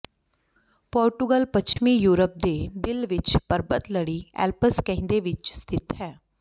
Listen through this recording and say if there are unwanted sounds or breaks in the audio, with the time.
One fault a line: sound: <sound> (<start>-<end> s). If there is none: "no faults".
sound: dropout (1.7-1.8 s)